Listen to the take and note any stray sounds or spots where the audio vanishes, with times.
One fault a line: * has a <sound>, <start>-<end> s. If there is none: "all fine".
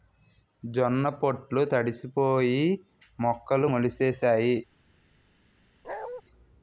* has a bark, 5.8-6.2 s